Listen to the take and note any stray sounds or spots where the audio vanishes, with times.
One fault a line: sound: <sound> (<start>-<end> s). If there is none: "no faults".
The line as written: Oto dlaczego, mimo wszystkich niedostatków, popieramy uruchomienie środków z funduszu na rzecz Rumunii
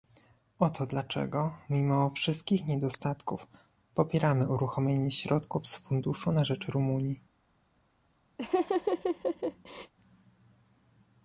sound: laugh (8.4-9.9 s)